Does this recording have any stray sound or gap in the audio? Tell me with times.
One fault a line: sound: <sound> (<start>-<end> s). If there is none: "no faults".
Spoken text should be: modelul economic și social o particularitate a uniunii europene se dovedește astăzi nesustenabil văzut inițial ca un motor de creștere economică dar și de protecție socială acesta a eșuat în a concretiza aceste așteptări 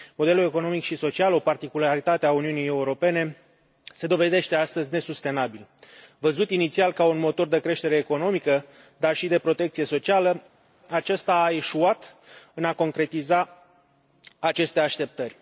no faults